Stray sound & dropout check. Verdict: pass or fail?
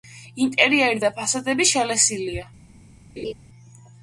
fail